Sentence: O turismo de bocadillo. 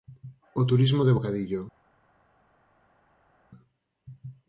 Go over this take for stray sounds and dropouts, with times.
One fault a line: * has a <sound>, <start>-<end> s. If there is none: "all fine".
all fine